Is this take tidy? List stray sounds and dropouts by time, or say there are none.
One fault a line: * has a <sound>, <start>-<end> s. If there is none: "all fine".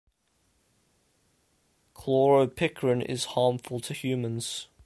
all fine